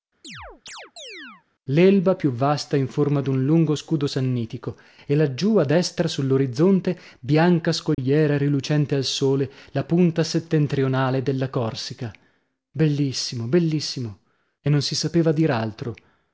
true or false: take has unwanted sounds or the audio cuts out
true